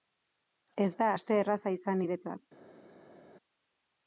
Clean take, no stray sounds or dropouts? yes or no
yes